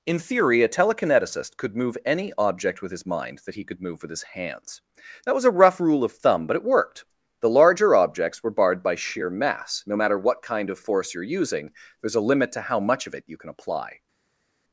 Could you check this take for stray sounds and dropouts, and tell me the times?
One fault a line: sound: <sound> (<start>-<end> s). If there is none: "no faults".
no faults